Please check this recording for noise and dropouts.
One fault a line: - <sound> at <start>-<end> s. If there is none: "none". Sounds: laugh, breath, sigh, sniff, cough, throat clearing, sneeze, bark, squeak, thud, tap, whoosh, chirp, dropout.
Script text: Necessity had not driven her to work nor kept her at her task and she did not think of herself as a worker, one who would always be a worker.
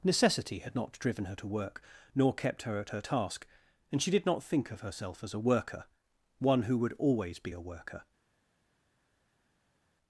none